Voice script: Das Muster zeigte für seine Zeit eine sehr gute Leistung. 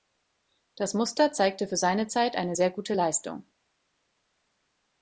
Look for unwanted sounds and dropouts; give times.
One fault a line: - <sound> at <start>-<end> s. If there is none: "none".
none